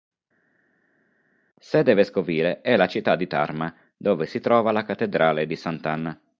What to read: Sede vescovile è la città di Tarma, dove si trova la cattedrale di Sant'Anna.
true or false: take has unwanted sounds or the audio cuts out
false